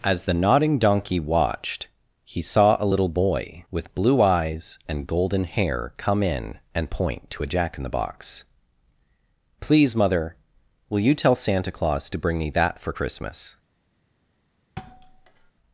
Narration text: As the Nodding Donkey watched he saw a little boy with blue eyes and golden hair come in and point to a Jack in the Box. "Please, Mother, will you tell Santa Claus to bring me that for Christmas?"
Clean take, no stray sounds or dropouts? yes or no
no